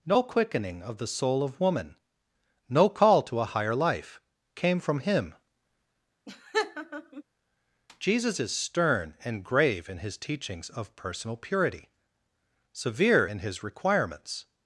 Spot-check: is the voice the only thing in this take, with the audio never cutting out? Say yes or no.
no